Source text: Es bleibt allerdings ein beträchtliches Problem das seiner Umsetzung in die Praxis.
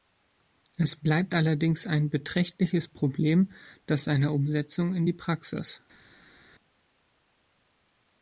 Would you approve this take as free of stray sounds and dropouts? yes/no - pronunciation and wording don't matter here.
yes